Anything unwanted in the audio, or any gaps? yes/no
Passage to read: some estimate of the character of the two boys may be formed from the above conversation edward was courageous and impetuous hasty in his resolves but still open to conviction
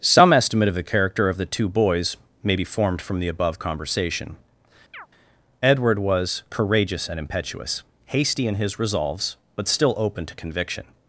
yes